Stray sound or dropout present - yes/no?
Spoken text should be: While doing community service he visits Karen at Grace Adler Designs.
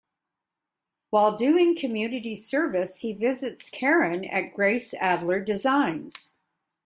no